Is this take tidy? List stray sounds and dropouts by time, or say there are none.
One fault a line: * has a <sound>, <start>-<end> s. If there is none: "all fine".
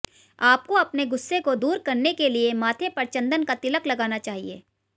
all fine